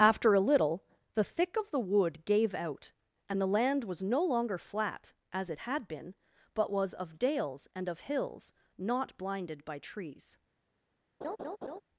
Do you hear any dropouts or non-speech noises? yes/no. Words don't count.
yes